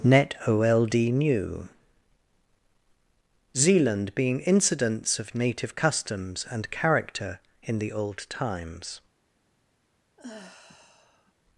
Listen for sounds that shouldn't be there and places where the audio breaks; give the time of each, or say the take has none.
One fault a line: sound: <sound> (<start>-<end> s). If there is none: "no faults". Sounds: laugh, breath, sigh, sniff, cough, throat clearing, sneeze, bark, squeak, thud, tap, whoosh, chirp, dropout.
sound: sigh (10.2-11.3 s)